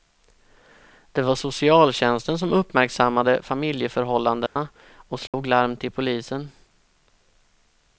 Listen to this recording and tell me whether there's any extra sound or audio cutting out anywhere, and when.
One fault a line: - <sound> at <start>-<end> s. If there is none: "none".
- dropout at 4.5-4.6 s
- dropout at 5.3-5.3 s